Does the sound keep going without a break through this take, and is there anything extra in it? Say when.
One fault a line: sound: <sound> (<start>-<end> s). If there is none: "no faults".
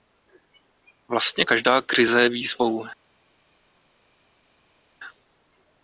no faults